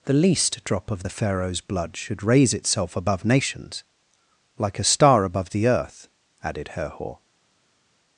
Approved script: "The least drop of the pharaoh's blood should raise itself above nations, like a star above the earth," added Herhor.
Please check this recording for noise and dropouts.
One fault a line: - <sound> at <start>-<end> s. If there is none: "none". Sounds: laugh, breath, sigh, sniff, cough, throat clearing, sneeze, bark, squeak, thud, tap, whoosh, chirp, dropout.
none